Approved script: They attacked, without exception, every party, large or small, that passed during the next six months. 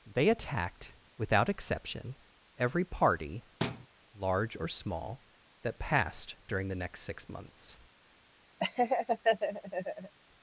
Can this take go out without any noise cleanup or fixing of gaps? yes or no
no